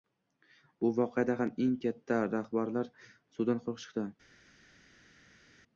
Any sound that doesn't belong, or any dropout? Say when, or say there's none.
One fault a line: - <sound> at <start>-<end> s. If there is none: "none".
none